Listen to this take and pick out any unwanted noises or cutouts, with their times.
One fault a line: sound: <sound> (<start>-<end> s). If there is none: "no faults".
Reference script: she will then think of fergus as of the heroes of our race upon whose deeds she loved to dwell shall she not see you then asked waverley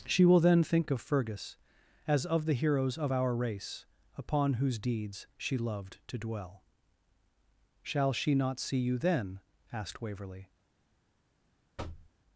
sound: thud (11.8-12.1 s)